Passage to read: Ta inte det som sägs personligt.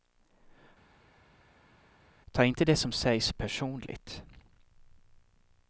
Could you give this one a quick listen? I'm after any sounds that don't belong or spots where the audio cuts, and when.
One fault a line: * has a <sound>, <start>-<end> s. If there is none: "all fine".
all fine